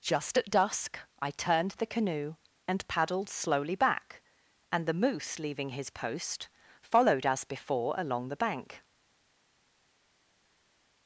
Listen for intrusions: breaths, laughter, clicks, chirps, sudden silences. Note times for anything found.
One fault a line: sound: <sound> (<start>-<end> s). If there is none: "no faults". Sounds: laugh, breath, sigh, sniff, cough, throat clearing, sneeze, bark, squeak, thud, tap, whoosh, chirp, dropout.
no faults